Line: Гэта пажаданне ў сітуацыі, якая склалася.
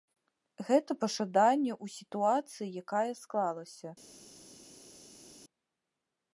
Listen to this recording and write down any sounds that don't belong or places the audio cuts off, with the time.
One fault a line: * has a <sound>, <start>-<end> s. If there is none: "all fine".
all fine